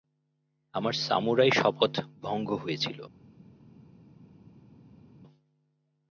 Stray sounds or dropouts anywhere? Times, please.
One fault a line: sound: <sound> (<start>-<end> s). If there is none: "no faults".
no faults